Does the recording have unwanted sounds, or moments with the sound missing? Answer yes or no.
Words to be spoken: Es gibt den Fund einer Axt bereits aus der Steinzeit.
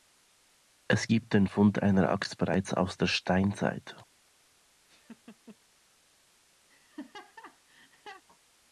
yes